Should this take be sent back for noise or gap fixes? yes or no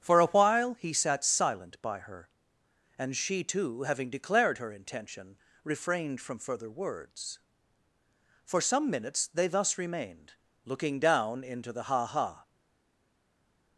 no